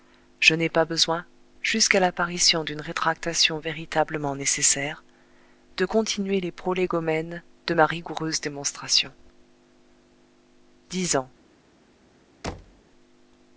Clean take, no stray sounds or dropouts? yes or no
no